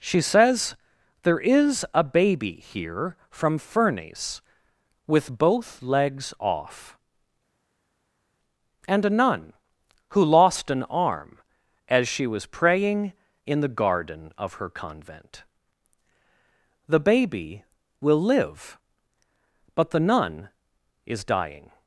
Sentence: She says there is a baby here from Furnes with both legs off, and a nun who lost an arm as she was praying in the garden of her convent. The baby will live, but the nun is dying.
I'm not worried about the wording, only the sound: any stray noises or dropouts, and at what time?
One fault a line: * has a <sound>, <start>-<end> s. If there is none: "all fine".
all fine